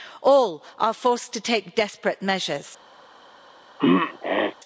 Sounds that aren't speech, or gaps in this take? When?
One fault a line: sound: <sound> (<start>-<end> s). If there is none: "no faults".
sound: throat clearing (3.8-4.6 s)